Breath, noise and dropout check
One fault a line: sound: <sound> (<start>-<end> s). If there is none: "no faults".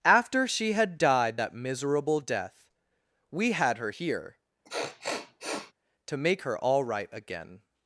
sound: sniff (4.6-5.7 s)